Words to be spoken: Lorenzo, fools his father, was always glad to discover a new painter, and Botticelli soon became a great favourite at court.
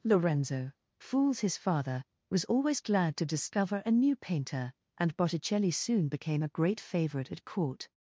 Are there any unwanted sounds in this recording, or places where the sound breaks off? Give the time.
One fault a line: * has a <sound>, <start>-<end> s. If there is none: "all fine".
all fine